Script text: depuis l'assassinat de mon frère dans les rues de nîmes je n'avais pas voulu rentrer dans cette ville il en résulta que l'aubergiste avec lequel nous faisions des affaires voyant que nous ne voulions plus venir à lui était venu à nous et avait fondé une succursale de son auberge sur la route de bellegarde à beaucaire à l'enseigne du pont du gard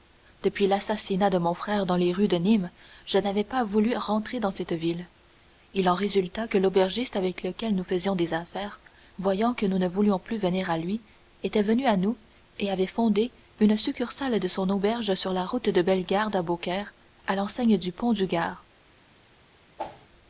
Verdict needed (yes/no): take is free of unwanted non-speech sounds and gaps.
no